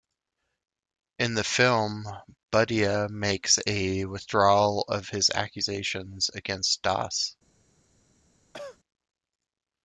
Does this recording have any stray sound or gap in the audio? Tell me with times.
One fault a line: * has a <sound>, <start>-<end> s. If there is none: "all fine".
* has a cough, 8.5-8.8 s